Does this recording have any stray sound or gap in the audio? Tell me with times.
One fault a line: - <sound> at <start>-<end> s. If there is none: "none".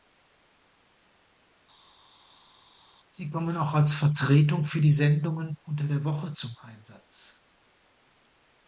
none